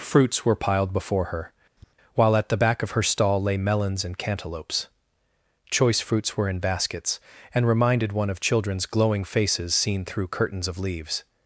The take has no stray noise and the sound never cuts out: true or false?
false